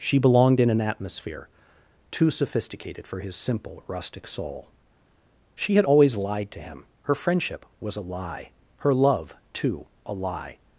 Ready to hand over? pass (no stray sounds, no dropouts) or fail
pass